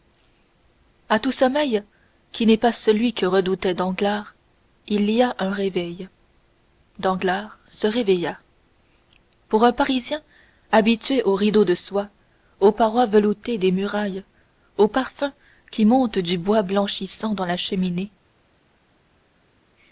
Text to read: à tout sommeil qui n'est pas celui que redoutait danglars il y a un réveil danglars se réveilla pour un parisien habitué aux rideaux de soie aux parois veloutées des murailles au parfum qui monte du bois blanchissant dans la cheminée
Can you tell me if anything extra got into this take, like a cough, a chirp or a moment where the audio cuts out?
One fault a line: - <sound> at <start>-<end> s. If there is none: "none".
none